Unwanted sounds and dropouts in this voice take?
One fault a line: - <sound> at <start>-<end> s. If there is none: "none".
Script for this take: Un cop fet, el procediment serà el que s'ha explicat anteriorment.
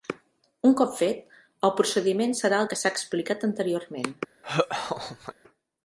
- laugh at 4.4-5.3 s